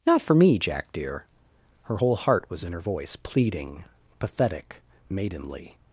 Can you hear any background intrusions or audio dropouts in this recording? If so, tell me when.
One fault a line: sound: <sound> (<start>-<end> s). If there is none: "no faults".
no faults